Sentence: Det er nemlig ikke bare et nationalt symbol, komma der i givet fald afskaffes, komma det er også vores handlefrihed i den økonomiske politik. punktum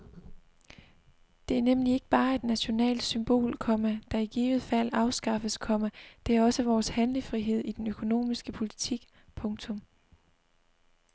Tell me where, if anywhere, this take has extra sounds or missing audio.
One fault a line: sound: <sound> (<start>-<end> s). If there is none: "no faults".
no faults